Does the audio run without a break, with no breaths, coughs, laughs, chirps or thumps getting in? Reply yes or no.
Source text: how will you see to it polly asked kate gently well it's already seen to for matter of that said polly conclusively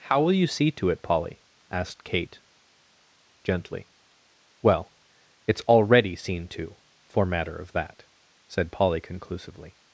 yes